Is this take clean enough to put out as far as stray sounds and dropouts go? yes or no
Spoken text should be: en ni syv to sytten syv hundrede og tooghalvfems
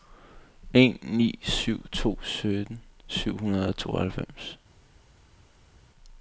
yes